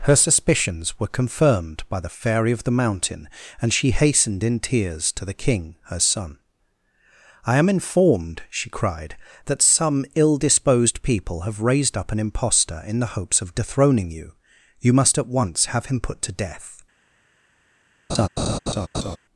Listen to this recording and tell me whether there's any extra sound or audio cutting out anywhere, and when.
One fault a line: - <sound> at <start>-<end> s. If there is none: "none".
- laugh at 18.1-19.2 s